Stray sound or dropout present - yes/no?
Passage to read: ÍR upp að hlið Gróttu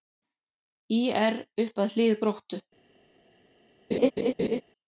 yes